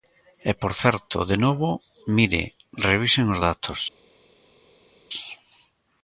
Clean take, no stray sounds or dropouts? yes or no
yes